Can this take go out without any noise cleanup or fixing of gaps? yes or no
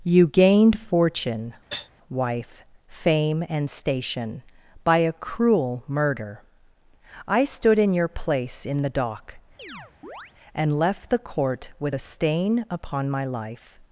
no